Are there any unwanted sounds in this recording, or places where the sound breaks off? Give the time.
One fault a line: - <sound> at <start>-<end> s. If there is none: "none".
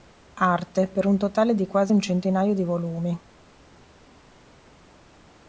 none